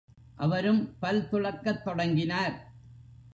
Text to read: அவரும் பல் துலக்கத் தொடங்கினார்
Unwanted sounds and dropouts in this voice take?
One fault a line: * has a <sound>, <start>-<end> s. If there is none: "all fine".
all fine